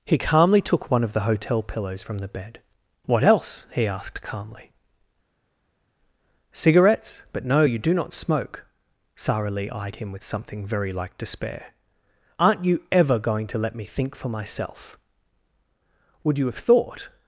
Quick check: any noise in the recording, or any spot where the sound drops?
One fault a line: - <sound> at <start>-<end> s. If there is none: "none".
none